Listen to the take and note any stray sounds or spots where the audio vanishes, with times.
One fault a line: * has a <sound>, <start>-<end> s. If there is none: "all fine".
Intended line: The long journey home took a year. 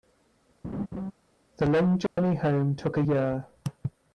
* has a laugh, 0.6-1.1 s
* has a dropout, 2.1-2.2 s